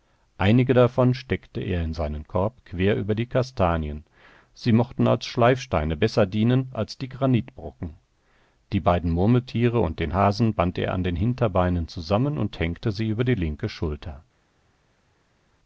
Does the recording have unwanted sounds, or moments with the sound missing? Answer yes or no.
no